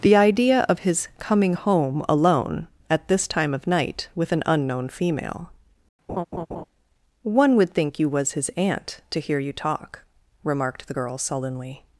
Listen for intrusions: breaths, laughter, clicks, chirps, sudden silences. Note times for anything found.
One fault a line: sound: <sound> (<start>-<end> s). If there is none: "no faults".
sound: laugh (6.1-6.6 s)